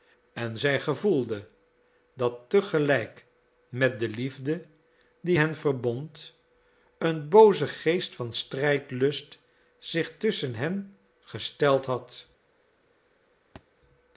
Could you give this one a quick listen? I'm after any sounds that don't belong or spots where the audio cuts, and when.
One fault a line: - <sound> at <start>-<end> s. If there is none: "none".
- thud at 13.6-13.7 s